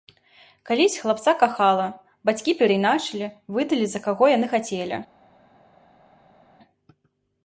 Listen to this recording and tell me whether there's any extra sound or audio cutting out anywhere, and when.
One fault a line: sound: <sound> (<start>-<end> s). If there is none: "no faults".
no faults